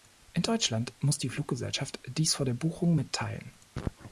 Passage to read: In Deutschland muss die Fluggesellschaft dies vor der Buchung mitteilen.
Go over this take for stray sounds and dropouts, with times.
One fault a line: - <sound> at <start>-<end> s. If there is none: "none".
none